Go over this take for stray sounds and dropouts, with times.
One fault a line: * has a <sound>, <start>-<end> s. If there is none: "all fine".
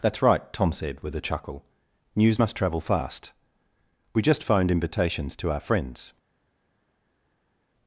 all fine